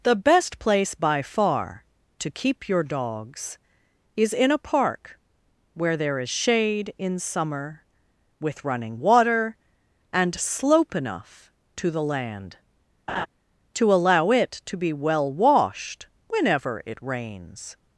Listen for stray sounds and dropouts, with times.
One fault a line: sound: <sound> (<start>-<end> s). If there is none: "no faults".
sound: laugh (13.1-13.3 s)